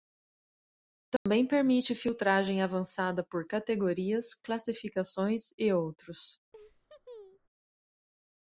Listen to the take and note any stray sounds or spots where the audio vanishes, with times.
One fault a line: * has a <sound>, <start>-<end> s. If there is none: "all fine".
* has a dropout, 1.2-1.3 s
* has a laugh, 6.5-7.5 s